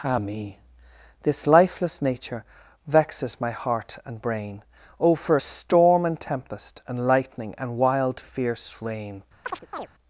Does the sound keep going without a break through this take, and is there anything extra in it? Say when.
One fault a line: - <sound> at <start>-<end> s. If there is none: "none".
- chirp at 9.4-9.9 s